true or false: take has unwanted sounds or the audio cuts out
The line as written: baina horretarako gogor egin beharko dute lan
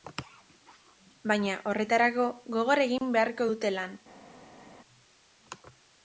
false